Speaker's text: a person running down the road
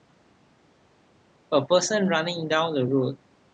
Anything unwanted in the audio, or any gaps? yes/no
no